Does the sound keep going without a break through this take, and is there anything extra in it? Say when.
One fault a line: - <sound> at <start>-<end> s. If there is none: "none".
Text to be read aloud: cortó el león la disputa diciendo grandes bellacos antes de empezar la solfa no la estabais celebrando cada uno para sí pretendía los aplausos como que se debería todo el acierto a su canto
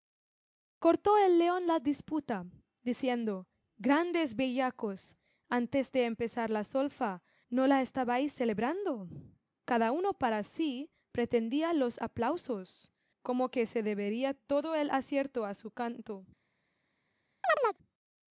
- chirp at 17.4-17.8 s